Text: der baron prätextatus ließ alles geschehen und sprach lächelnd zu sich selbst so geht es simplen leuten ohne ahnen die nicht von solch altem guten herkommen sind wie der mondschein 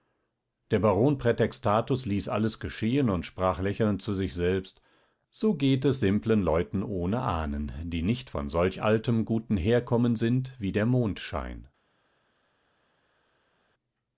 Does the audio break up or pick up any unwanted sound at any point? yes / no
no